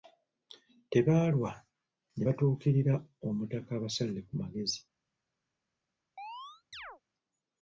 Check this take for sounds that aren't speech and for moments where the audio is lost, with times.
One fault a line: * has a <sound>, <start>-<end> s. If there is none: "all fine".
* has a chirp, 6.2-7.0 s